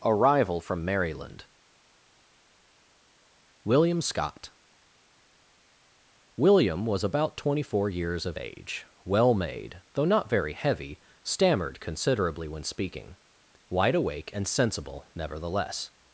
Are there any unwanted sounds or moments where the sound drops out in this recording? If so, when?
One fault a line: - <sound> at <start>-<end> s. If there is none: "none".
none